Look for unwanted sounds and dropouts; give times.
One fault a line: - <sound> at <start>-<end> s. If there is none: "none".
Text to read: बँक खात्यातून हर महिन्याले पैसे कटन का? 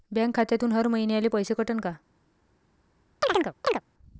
- chirp at 3.2-3.8 s